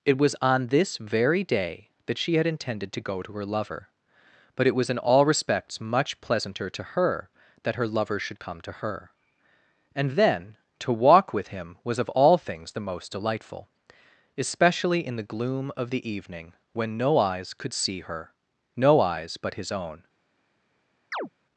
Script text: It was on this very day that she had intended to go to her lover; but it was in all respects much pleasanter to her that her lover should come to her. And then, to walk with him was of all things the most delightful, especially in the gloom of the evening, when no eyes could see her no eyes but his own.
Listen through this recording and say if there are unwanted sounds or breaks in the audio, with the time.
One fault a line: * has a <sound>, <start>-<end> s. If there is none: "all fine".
* has a chirp, 21.1-21.3 s